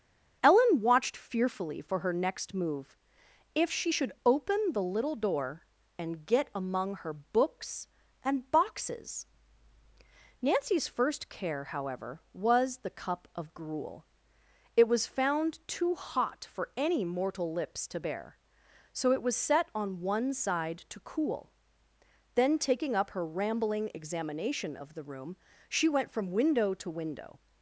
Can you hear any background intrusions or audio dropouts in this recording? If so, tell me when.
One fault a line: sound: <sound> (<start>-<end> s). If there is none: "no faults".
no faults